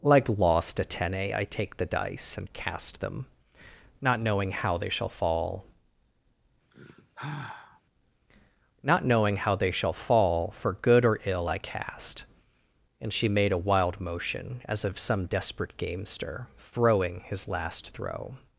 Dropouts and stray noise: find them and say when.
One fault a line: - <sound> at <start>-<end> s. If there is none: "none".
- sigh at 6.7-7.8 s